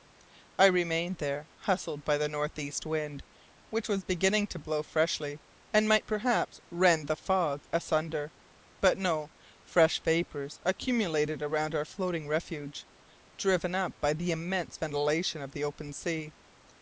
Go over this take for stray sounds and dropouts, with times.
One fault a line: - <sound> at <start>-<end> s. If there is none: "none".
none